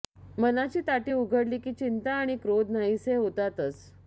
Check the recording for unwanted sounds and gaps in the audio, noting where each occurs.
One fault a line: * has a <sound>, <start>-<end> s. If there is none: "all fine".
all fine